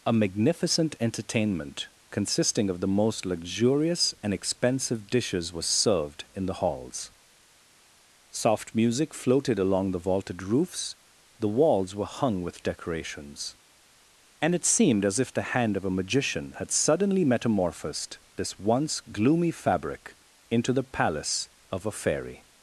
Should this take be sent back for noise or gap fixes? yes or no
no